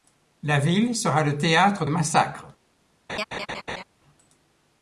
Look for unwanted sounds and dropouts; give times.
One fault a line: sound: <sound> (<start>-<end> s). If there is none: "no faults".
sound: laugh (3.1-3.8 s)